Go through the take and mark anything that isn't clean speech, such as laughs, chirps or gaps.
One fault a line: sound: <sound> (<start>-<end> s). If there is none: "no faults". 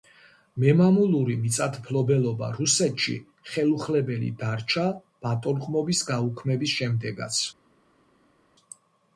no faults